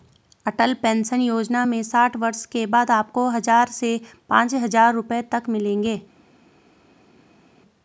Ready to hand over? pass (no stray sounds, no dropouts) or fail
pass